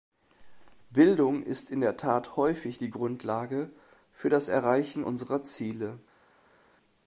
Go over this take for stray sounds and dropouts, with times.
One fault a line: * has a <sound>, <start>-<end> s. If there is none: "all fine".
all fine